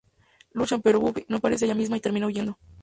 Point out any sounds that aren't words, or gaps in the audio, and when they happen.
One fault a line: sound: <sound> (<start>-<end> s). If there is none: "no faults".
no faults